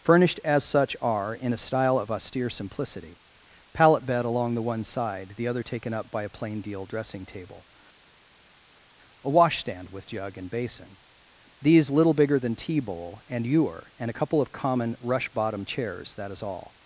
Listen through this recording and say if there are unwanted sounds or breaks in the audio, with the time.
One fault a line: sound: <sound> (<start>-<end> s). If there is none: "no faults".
no faults